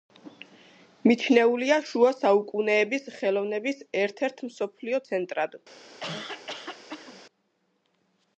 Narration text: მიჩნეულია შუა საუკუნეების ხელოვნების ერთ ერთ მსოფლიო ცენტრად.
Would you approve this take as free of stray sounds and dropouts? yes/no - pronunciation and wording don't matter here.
no